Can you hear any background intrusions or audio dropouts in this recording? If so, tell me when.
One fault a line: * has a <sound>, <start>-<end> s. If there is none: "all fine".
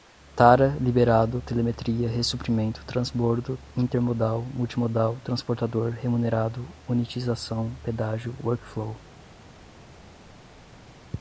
all fine